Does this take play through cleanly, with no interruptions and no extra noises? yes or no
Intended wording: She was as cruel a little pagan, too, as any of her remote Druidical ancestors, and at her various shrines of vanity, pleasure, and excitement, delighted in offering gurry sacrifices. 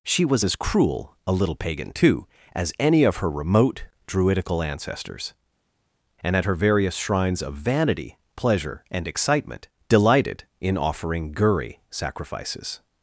yes